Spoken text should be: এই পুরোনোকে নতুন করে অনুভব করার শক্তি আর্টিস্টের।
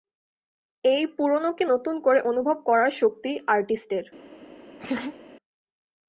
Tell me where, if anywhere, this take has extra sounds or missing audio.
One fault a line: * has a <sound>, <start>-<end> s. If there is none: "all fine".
* has a laugh, 4.8-5.2 s